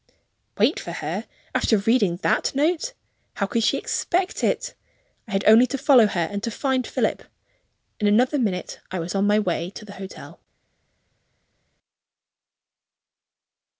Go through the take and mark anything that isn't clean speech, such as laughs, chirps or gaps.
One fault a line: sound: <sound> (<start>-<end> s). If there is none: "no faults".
no faults